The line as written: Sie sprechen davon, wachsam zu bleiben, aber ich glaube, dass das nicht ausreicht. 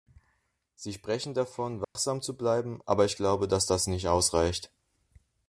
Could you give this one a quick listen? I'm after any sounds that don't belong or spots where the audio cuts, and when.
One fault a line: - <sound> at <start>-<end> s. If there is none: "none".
- dropout at 1.8-2.0 s